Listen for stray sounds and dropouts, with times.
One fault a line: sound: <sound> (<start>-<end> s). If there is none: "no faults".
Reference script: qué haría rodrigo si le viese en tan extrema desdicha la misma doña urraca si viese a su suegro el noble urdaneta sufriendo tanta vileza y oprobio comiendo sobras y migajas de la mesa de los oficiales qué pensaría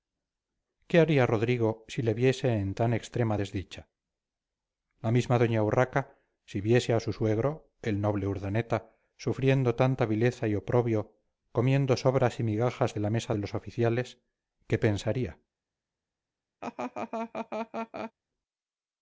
sound: laugh (16.6-18.1 s)